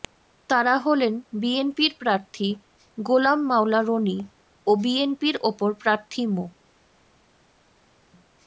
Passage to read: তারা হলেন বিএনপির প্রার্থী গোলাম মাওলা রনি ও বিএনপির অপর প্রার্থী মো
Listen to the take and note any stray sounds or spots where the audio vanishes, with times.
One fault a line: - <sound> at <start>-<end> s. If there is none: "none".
none